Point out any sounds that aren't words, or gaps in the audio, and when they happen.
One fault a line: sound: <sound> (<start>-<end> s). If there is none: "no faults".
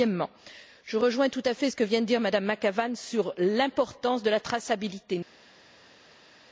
no faults